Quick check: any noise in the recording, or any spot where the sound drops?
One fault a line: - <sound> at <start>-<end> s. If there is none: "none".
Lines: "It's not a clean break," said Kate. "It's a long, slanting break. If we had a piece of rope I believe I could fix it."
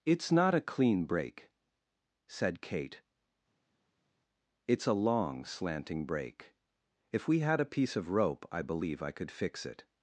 none